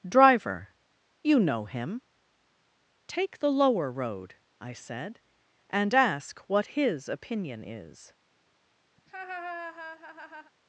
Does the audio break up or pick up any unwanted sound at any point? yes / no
yes